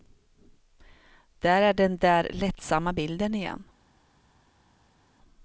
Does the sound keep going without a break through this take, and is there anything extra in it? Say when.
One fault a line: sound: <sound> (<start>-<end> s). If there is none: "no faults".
no faults